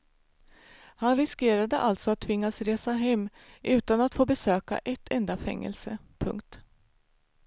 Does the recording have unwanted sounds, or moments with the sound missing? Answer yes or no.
no